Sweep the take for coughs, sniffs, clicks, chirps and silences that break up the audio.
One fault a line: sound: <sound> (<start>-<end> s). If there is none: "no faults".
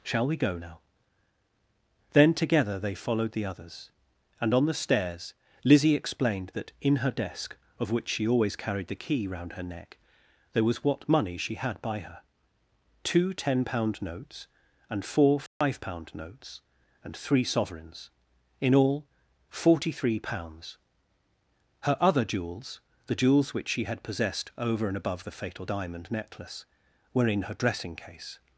sound: dropout (15.5-15.6 s)